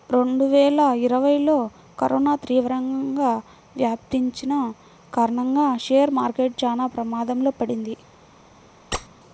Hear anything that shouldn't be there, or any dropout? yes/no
yes